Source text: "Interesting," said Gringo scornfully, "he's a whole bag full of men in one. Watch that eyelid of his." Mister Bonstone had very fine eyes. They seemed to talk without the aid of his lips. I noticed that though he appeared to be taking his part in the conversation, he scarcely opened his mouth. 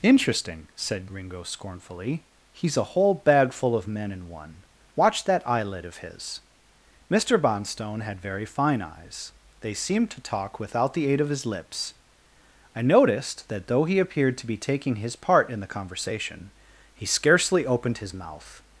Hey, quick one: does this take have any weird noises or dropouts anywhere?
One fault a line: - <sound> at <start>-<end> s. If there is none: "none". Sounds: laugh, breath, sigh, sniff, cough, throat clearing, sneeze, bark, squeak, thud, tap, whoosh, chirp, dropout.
none